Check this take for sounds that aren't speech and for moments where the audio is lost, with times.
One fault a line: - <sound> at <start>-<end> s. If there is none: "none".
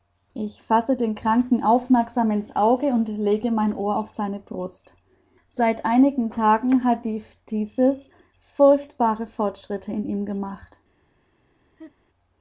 - laugh at 11.8-11.9 s